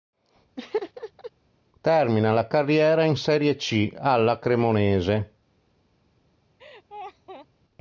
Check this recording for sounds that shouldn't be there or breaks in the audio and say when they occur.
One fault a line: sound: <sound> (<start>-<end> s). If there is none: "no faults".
sound: laugh (0.6-1.3 s)
sound: laugh (6.6-7.5 s)